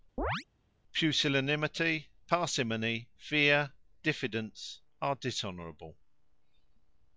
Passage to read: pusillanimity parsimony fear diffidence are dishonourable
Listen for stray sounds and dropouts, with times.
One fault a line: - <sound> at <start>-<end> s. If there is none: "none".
- chirp at 0.2-0.4 s